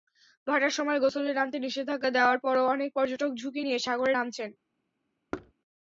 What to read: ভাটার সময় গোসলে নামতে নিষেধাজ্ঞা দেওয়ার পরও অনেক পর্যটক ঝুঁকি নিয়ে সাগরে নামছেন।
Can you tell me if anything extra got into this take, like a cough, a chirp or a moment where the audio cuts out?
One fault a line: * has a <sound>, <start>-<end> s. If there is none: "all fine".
* has a thud, 5.3-5.5 s